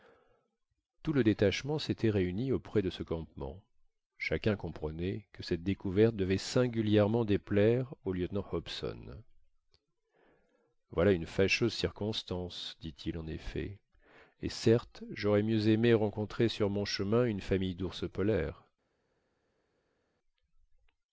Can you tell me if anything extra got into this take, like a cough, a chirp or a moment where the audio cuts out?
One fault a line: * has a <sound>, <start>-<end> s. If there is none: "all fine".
all fine